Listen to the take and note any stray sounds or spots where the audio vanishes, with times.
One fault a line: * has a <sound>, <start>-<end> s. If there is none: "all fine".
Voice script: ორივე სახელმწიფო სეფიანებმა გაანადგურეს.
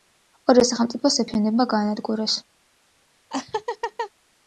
* has a laugh, 3.3-4.1 s